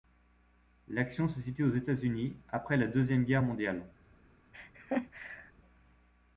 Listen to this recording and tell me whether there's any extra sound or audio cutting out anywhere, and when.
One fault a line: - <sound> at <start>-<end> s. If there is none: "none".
- laugh at 4.5-5.5 s